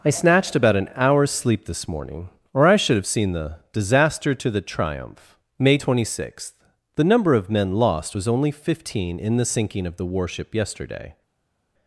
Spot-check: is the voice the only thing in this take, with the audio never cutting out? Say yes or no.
yes